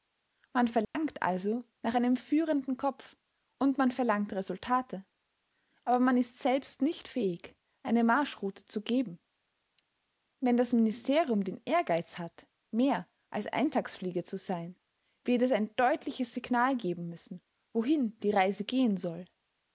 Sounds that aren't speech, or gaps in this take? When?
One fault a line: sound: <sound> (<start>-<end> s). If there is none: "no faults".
sound: dropout (0.8-0.9 s)